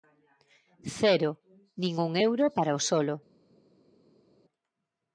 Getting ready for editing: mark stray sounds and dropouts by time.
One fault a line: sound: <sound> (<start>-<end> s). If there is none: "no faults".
no faults